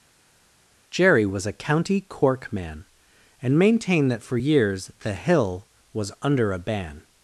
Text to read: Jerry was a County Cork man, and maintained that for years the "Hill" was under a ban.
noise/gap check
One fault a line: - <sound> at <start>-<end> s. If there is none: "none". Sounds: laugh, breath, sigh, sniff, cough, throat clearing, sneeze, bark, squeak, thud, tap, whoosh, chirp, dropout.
none